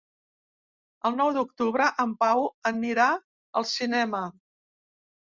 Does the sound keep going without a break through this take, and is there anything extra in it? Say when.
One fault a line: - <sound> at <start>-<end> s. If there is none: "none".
none